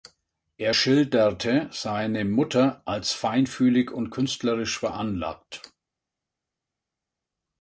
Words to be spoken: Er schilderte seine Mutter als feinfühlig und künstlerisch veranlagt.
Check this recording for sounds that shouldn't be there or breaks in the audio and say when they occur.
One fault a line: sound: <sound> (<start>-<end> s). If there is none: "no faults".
no faults